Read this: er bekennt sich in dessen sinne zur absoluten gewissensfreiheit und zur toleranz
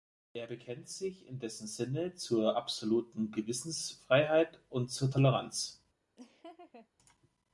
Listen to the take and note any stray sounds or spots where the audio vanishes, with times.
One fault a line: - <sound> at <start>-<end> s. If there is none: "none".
- laugh at 6.2-6.9 s